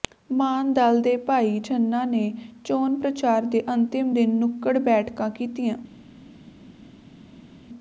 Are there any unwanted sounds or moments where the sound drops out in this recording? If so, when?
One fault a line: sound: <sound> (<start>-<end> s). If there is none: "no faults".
no faults